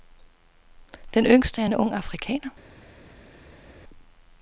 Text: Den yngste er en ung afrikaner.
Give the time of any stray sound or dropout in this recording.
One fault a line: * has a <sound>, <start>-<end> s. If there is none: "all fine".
all fine